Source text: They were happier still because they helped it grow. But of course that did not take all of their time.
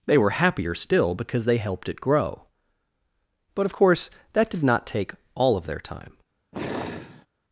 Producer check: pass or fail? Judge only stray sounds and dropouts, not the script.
fail